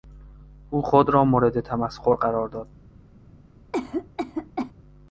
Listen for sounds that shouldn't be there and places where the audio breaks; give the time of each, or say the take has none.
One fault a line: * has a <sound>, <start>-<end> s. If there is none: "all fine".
* has a cough, 3.7-4.7 s